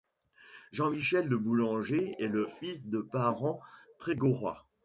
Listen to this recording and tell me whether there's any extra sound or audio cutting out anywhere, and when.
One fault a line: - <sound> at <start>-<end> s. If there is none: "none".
none